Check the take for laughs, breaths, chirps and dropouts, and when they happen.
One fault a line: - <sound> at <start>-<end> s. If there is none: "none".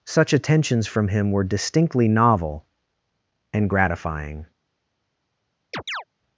- chirp at 5.7-6.0 s